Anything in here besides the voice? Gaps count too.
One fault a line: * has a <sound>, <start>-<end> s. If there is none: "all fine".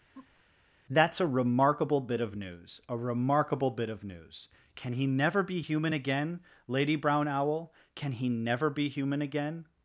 * has a laugh, 0.1-0.4 s